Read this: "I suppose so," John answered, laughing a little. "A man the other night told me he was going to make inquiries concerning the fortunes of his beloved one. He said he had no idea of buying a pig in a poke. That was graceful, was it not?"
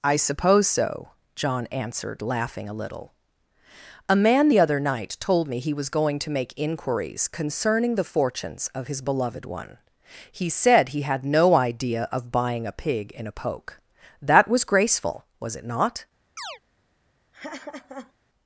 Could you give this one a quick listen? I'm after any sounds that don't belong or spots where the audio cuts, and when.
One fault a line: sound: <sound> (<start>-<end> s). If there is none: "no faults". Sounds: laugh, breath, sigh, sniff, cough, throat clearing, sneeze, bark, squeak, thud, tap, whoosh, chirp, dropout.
sound: chirp (16.4-16.6 s)
sound: laugh (17.3-18.1 s)